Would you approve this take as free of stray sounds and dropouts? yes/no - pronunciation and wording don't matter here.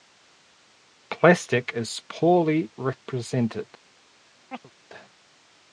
no